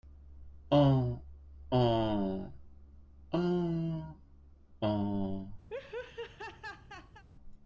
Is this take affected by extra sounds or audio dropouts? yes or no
yes